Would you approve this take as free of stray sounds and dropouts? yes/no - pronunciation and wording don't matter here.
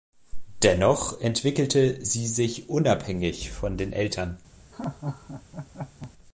no